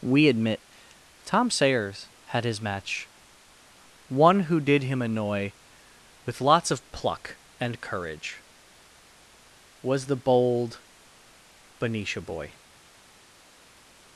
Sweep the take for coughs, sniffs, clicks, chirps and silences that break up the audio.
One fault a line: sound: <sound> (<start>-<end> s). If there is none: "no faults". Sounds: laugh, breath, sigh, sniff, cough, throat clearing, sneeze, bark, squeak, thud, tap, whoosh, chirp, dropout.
no faults